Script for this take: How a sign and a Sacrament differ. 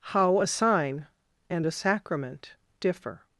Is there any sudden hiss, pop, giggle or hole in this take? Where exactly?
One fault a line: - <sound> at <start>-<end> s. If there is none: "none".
none